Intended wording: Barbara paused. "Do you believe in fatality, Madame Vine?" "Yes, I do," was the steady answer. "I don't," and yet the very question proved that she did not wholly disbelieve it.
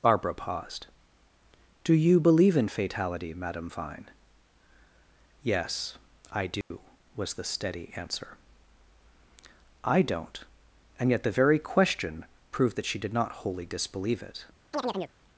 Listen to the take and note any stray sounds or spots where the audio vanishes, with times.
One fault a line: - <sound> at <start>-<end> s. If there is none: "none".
- dropout at 6.6-6.7 s
- chirp at 14.7-15.1 s